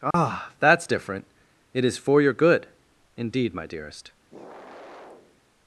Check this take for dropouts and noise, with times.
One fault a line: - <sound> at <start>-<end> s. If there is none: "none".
- dropout at 0.1-0.1 s
- sigh at 4.3-5.4 s